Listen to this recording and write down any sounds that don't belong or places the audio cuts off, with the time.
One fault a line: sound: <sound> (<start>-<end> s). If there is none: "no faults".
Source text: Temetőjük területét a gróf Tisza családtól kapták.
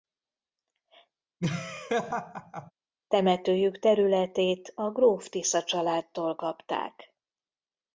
sound: laugh (1.4-2.7 s)